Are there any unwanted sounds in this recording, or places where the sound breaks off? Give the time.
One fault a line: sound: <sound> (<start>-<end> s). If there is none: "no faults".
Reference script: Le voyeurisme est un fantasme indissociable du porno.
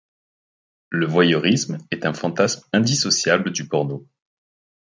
no faults